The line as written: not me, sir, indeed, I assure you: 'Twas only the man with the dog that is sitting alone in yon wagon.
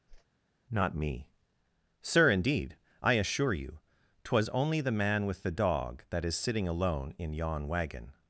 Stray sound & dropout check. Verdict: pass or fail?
fail